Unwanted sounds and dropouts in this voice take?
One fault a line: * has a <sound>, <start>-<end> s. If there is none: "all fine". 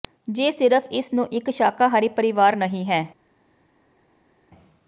all fine